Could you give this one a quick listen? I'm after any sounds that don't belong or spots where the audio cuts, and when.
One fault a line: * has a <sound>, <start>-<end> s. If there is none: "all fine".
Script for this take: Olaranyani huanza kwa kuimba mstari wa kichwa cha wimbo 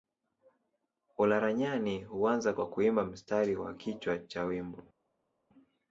all fine